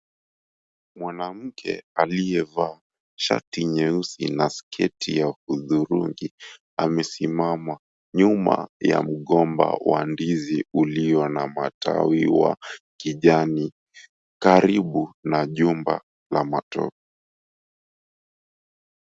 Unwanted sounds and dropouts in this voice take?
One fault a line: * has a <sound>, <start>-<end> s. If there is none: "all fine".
all fine